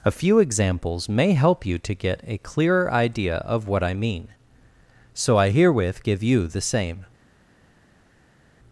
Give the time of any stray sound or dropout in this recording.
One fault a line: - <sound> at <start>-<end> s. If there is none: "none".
none